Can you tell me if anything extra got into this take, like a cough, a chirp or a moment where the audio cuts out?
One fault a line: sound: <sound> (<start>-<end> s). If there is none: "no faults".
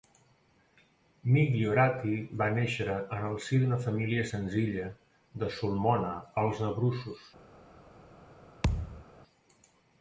sound: thud (8.6-9.1 s)